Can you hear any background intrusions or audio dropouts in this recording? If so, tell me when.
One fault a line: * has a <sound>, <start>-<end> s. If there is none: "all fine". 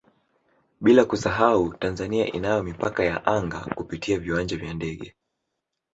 all fine